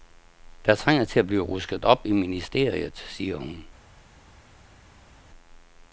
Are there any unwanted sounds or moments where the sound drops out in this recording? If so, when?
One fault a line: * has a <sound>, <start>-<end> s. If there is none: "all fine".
all fine